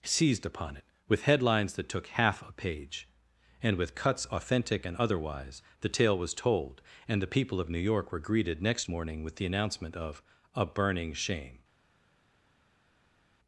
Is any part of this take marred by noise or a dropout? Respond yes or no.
no